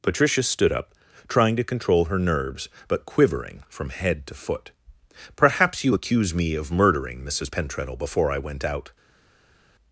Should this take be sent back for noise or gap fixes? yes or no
no